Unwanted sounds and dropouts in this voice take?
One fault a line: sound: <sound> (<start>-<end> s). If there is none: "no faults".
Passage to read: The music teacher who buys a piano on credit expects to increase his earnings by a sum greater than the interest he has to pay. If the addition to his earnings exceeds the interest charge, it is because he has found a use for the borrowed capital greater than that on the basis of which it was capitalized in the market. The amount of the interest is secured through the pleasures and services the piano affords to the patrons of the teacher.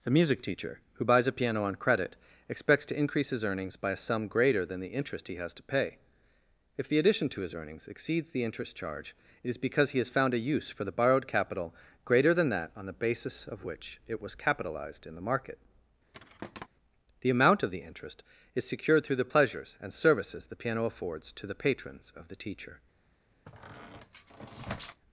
sound: thud (16.1-16.7 s)
sound: squeak (23.5-25.0 s)